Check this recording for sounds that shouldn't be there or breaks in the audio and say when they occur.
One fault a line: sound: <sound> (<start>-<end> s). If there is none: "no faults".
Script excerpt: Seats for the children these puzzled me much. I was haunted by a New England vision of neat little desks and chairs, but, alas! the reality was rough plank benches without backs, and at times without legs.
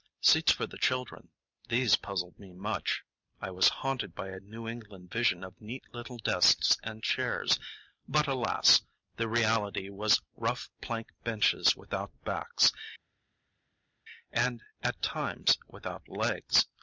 no faults